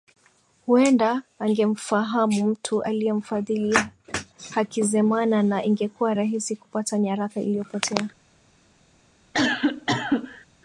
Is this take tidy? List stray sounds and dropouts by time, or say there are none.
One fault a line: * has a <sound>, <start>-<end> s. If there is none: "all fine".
* has a cough, 9.3-10.5 s